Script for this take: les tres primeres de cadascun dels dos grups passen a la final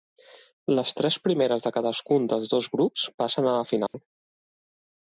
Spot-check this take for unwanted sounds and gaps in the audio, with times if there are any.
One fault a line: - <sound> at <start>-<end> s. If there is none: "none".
- dropout at 3.9-3.9 s